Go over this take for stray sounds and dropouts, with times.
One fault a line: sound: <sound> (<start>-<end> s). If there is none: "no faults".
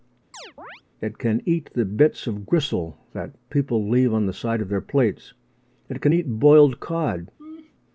sound: chirp (0.3-0.8 s)
sound: laugh (7.4-7.7 s)